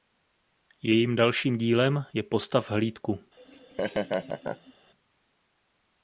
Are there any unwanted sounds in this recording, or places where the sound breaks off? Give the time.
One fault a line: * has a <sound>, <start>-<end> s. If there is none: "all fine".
* has a laugh, 3.4-4.7 s